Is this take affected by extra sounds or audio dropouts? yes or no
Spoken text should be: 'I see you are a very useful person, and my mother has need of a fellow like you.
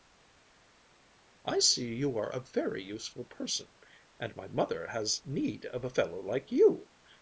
no